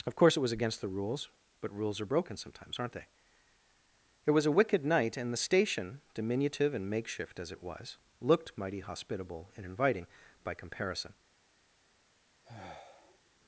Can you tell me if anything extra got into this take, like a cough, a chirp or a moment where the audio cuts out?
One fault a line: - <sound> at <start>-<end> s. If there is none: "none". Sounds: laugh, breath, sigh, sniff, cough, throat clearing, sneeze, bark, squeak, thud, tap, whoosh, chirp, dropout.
- sigh at 12.4-13.3 s